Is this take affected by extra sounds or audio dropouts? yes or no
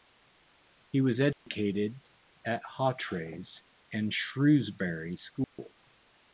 yes